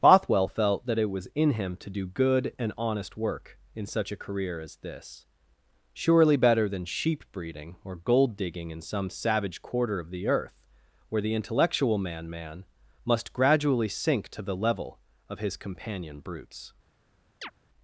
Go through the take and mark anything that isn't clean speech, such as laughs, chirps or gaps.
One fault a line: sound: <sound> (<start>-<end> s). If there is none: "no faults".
sound: chirp (17.4-17.5 s)